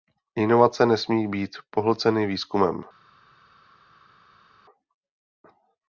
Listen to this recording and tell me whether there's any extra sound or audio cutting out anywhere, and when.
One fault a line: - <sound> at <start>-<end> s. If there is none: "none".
none